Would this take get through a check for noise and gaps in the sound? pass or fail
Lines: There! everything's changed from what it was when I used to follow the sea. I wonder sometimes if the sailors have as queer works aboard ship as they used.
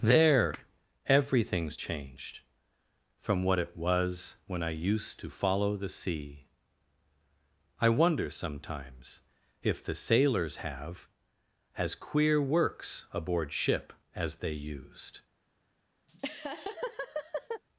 fail